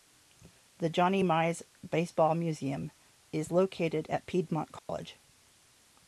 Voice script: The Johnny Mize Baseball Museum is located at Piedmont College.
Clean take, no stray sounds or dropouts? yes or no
no